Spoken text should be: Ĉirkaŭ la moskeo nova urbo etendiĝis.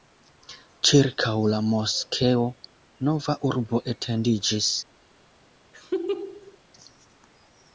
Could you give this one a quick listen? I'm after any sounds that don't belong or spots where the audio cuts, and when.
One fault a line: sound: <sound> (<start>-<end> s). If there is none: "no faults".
sound: laugh (5.7-6.6 s)